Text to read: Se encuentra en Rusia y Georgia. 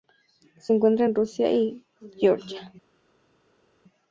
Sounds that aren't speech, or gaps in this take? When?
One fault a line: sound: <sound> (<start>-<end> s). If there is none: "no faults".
no faults